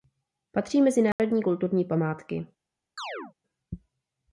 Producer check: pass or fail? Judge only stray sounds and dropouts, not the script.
fail